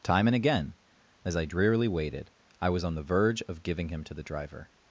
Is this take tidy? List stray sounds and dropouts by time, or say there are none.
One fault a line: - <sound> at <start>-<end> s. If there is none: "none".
none